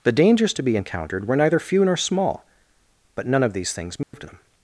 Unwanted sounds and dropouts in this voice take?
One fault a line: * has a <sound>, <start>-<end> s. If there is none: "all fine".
* has a dropout, 4.0-4.1 s